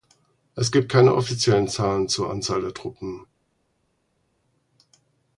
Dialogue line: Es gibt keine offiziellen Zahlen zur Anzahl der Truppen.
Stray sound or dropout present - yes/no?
no